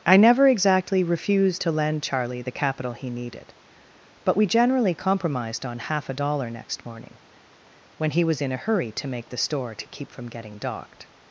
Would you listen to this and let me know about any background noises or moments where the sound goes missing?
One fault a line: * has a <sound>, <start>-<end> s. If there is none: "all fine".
all fine